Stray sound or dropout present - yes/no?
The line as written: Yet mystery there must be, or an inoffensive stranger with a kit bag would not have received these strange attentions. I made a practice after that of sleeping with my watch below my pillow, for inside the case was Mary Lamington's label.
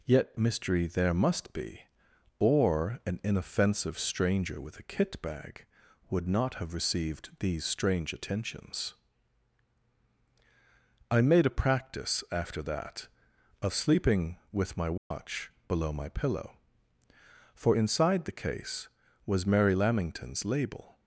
yes